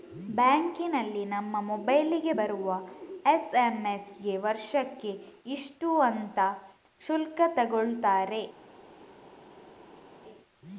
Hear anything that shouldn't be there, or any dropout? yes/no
no